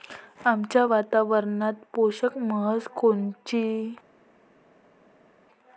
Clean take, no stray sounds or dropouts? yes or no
yes